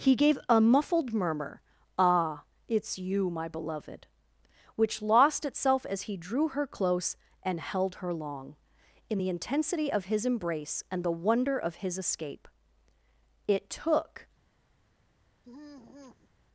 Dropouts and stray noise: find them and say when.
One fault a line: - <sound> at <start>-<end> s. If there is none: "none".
- sigh at 15.4-16.3 s